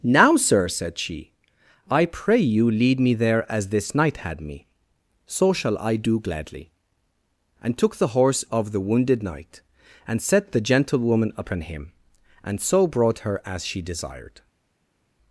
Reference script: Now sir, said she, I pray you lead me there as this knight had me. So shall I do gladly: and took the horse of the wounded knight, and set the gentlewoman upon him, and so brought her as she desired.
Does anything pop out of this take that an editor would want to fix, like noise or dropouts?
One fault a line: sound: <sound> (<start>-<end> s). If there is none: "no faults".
no faults